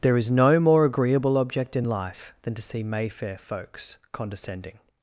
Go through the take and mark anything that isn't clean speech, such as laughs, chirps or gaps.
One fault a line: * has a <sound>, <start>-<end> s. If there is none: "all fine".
all fine